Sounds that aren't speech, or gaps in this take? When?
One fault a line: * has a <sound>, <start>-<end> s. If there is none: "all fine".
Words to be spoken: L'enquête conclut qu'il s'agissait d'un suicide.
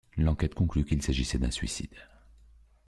all fine